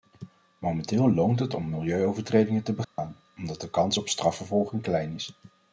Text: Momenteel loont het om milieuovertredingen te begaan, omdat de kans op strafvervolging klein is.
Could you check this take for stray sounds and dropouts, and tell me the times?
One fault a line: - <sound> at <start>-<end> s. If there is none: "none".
- dropout at 2.8-3.0 s